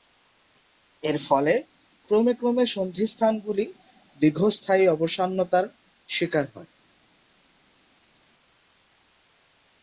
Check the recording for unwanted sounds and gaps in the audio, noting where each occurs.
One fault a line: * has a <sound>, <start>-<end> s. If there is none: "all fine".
all fine